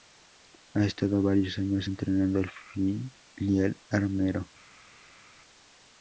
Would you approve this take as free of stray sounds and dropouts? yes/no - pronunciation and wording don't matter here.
yes